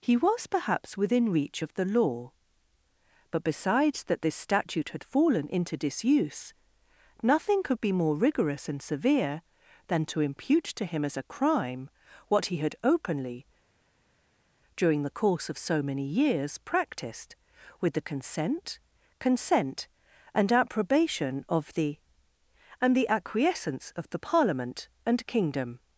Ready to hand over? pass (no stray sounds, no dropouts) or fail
pass